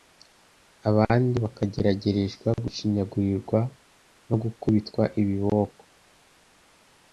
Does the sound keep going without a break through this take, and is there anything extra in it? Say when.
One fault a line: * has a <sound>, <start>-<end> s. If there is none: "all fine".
all fine